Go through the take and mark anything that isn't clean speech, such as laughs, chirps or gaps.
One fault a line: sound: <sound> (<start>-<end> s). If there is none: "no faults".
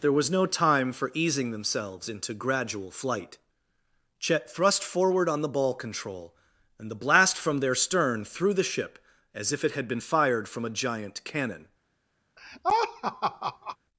sound: laugh (12.4-13.8 s)